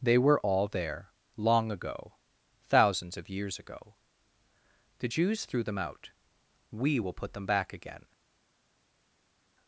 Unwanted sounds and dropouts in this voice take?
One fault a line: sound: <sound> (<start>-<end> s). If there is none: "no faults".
no faults